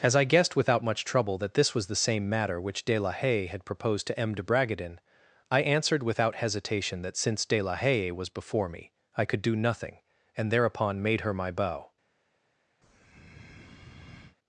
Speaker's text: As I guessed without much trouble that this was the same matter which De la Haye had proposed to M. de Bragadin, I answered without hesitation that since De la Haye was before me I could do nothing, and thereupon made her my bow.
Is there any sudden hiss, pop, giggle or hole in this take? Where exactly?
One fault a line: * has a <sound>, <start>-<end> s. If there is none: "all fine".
* has a breath, 12.8-14.4 s